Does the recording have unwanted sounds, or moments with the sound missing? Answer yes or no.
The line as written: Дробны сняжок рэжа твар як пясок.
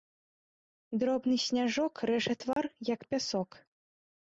yes